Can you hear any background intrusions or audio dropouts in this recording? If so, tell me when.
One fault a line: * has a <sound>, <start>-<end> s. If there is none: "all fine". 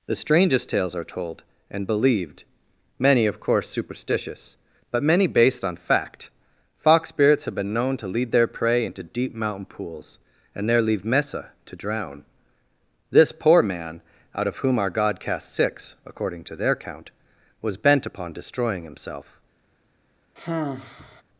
* has a sigh, 20.4-21.2 s